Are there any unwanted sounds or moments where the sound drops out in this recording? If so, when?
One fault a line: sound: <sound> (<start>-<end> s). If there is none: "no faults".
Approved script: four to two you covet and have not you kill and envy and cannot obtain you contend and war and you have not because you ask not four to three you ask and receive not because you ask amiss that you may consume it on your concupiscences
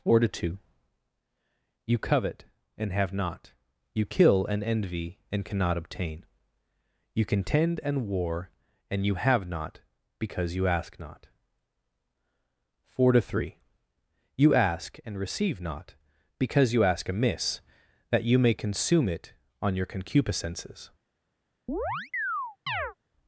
sound: chirp (21.7-22.9 s)